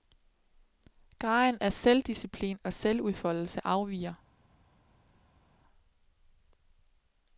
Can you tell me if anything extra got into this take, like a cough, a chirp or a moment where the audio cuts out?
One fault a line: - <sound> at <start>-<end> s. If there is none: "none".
none